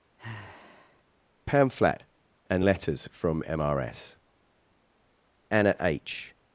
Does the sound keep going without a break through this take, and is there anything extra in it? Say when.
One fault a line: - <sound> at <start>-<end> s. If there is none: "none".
- sigh at 0.2-1.0 s